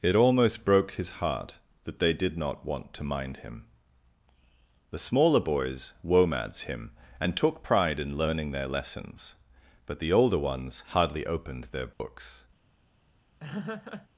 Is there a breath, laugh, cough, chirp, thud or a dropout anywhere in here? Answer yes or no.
yes